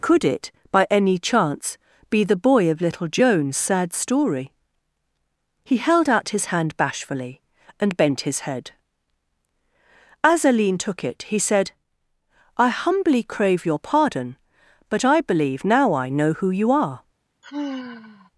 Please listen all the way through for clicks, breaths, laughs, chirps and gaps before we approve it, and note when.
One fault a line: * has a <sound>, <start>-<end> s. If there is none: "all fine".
* has a sigh, 17.4-18.3 s